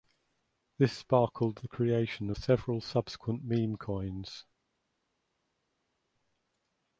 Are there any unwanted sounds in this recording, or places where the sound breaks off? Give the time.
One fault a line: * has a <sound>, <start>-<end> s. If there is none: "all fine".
all fine